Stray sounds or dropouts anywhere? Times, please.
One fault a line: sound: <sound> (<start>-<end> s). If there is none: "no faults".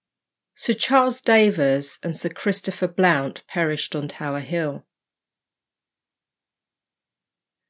no faults